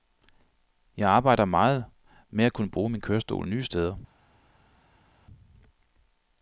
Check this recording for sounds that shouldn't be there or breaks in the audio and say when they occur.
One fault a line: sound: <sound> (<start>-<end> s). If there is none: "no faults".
no faults